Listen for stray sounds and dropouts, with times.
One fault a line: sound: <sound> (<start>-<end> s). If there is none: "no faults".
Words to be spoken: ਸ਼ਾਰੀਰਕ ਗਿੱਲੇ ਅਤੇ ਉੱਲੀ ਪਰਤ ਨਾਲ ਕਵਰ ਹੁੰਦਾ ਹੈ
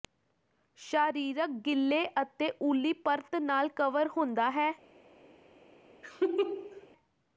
sound: laugh (6.0-6.9 s)